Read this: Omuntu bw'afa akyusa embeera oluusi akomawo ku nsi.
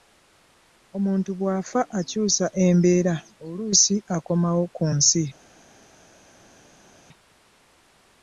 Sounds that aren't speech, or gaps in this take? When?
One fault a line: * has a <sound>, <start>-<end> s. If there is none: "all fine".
all fine